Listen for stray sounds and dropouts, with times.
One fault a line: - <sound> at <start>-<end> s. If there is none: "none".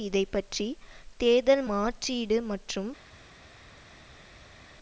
none